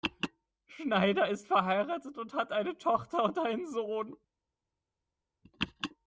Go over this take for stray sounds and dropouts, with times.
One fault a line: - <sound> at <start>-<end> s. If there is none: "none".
none